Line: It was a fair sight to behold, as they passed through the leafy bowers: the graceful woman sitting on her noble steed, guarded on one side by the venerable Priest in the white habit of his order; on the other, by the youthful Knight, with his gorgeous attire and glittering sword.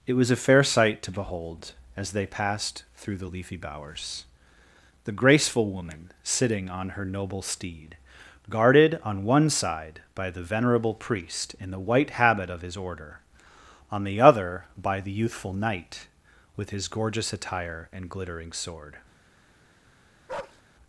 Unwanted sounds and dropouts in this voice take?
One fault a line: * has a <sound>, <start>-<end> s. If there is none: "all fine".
* has a bark, 20.3-20.6 s